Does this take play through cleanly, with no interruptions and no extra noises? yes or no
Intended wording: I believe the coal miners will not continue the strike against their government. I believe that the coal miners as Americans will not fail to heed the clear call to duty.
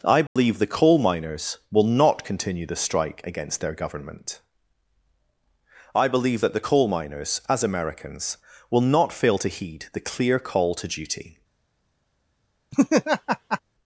no